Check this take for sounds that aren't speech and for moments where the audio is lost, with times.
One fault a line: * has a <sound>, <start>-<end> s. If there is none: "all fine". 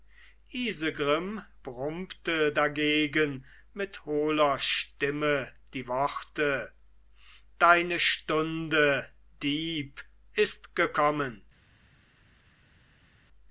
all fine